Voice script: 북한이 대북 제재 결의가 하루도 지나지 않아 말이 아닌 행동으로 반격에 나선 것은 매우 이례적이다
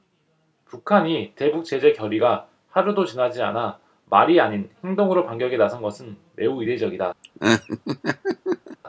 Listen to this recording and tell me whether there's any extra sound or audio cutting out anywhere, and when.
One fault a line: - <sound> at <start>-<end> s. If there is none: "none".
- laugh at 7.2-8.8 s